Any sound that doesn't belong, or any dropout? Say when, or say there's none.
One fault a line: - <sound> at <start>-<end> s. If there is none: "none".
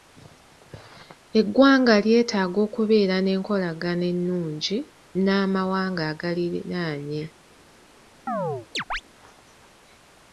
- chirp at 8.3-9.0 s